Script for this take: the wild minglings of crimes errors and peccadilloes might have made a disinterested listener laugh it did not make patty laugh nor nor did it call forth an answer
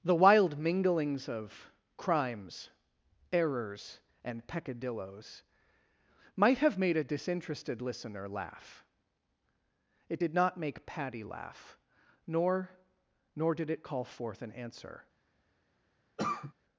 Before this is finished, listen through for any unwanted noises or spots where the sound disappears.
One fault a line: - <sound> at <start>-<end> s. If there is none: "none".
- cough at 16.2-16.5 s